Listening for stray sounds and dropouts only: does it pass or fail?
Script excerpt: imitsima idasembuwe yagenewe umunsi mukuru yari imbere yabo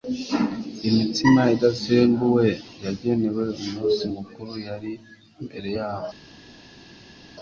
pass